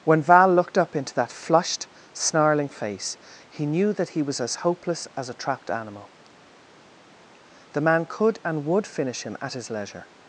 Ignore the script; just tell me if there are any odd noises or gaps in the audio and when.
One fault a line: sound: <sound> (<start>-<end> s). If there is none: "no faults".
no faults